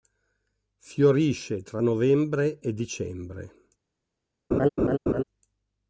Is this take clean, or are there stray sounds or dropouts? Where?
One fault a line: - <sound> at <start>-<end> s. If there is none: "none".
- laugh at 4.5-5.2 s